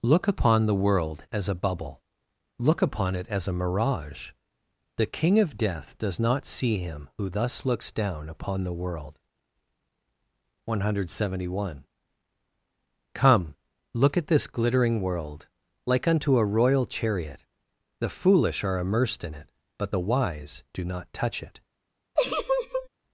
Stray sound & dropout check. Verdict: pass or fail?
fail